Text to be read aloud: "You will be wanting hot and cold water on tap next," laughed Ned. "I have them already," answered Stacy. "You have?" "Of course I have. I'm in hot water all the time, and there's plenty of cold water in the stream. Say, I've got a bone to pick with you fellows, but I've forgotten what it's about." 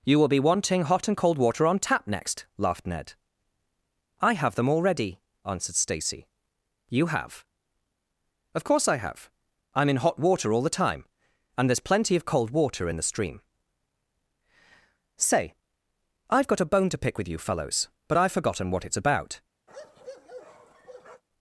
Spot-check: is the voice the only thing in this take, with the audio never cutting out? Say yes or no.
no